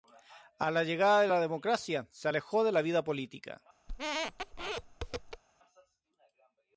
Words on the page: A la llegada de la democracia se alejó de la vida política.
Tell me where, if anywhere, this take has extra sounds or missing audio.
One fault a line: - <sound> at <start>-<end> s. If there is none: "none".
- squeak at 3.9-5.4 s